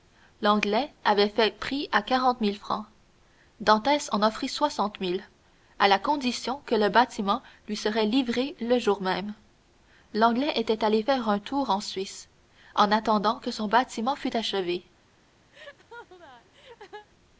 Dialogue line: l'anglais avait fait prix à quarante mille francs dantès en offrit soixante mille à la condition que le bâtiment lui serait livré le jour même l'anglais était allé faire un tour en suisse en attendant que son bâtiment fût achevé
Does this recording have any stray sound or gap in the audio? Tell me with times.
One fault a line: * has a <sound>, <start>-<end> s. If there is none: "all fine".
* has a laugh, 15.5-17.1 s